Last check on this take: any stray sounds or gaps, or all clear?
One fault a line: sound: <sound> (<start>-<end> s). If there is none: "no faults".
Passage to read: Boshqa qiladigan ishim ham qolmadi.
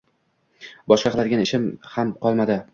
no faults